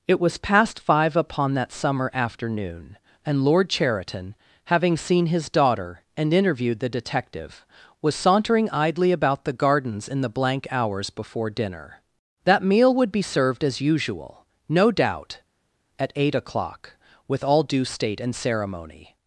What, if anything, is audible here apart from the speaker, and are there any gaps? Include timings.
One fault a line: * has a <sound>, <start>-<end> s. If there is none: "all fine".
all fine